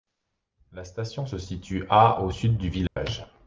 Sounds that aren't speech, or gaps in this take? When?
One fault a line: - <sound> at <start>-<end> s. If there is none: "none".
- dropout at 2.9-3.0 s